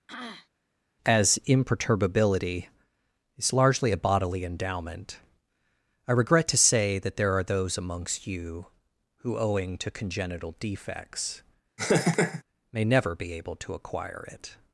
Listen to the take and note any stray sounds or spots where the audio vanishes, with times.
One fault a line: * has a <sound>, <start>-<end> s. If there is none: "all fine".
* has a throat clearing, 0.1-0.5 s
* has a laugh, 11.8-12.4 s